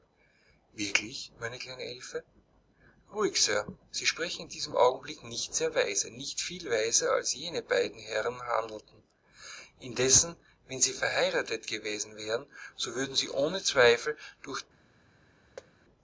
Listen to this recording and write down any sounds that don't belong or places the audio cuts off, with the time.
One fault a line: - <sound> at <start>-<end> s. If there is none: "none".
- thud at 15.6-15.7 s